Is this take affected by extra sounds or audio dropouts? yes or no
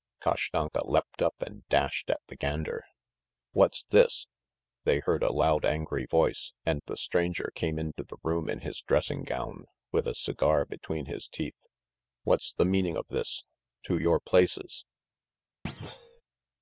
yes